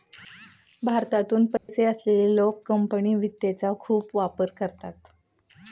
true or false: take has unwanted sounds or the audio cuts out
true